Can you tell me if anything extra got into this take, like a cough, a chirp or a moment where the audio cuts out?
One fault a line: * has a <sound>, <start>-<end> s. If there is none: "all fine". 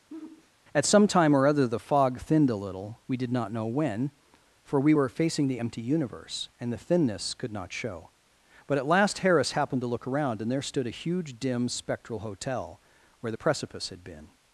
* has a sigh, 0.1-0.5 s